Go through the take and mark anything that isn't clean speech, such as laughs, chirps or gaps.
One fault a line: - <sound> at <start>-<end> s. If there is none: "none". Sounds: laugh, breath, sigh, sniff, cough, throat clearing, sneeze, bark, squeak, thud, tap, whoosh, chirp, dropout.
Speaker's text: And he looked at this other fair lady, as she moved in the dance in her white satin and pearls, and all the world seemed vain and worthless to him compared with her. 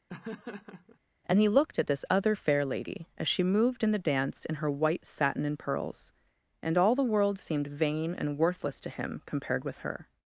- laugh at 0.1-1.0 s